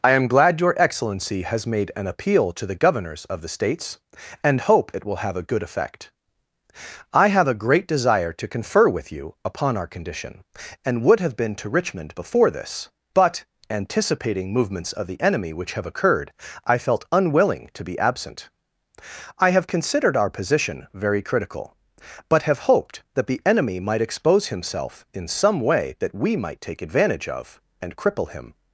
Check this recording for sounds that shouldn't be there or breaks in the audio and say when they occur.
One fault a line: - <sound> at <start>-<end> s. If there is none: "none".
none